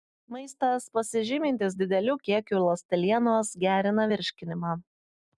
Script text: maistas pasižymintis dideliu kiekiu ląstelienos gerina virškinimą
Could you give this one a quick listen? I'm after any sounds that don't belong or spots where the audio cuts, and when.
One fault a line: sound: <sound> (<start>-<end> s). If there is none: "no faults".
no faults